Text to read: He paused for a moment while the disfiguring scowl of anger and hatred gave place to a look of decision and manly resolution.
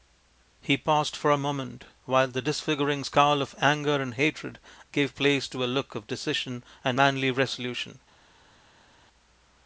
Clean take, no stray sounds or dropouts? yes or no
yes